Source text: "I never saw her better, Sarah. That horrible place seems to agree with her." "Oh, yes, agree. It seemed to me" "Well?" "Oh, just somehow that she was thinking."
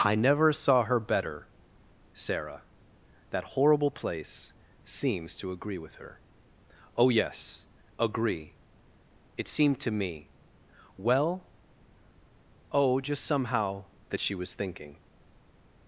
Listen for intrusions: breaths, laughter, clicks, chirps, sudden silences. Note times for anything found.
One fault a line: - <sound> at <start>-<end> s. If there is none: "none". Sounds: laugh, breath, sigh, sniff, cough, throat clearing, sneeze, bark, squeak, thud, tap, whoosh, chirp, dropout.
none